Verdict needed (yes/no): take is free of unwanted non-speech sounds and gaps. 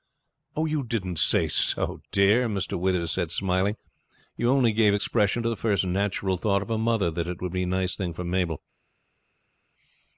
yes